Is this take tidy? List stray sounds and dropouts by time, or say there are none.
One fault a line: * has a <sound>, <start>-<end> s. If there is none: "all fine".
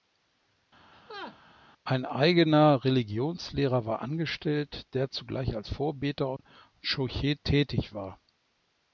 * has a laugh, 0.9-1.4 s
* has a dropout, 6.4-6.4 s